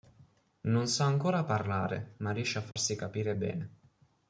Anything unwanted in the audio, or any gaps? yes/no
yes